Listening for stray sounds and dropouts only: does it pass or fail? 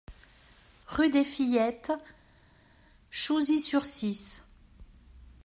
pass